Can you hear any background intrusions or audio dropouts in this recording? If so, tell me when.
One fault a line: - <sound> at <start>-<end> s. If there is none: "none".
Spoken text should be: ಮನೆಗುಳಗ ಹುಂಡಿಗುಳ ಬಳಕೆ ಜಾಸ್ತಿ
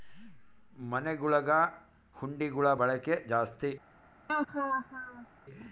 - laugh at 4.3-5.3 s